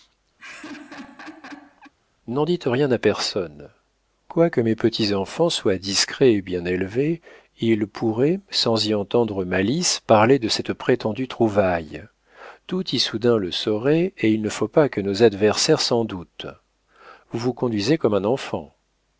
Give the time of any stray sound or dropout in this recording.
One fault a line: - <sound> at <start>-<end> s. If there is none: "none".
- laugh at 0.4-1.9 s